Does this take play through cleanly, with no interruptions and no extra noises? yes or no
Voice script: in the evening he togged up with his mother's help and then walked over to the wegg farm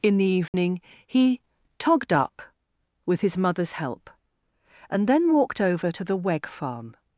no